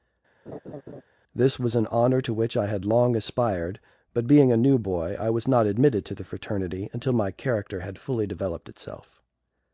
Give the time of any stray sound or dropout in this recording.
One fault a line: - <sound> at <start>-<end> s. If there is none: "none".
- laugh at 0.5-1.0 s